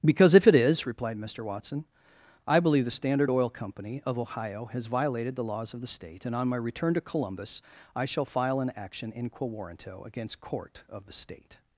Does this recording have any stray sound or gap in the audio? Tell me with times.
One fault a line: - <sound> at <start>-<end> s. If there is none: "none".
none